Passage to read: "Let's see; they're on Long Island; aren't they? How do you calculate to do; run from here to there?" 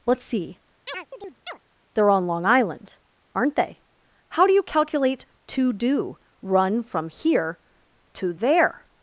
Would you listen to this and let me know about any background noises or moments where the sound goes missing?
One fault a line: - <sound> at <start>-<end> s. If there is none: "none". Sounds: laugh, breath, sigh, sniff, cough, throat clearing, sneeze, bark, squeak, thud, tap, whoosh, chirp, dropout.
- chirp at 0.9-1.6 s